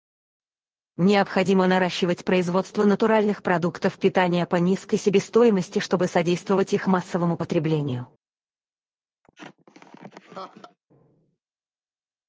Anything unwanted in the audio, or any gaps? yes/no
yes